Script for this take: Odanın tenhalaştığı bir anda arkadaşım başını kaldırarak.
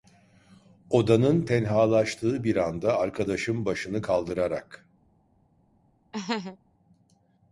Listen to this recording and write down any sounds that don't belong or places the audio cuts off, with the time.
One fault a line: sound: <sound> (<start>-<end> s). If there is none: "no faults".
sound: laugh (6.1-6.6 s)